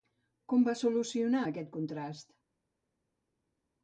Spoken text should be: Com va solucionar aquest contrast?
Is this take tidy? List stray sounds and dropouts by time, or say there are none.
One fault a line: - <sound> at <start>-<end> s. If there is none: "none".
none